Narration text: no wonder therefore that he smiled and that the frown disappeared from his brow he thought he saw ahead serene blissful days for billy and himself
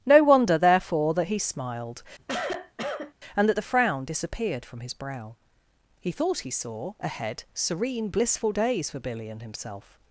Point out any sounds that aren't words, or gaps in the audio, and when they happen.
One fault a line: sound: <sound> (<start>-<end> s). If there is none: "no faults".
sound: cough (2.2-3.1 s)